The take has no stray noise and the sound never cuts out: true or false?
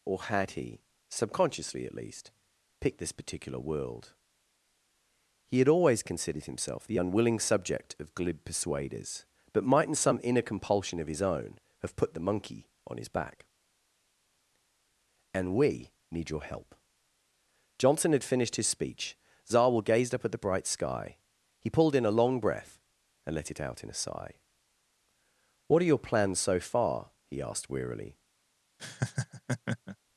false